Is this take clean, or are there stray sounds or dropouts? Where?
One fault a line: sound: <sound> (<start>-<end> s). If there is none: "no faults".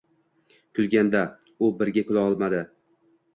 no faults